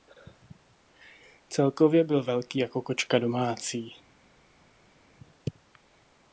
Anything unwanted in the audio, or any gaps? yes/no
no